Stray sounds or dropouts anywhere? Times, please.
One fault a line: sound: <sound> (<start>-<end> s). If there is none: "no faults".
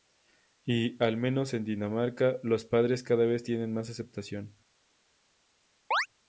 sound: chirp (5.9-6.1 s)